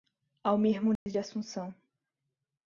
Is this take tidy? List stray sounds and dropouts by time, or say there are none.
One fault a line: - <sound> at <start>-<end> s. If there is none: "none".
- dropout at 1.0-1.1 s